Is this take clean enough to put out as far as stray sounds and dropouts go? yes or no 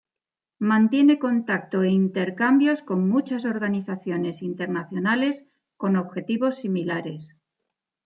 yes